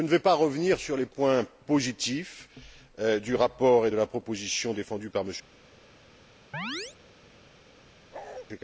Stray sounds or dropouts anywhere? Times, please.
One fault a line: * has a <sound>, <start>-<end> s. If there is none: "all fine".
* has a chirp, 6.5-7.0 s
* has a bark, 8.1-8.5 s